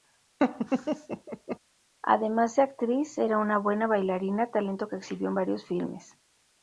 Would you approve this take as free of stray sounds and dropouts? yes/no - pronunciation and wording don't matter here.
no